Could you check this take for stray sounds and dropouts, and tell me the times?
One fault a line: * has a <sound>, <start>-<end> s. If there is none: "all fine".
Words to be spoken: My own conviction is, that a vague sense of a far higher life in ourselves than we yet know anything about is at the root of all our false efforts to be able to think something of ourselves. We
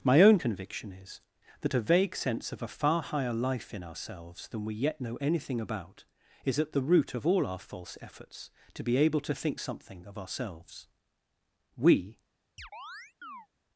* has a chirp, 12.6-13.5 s